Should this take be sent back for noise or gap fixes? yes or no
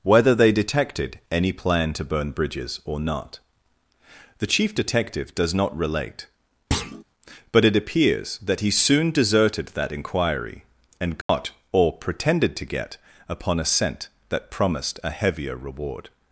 yes